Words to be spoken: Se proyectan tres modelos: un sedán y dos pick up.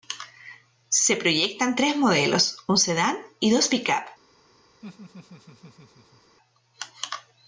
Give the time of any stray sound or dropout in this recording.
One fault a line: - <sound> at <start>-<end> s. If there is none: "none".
- laugh at 4.8-6.4 s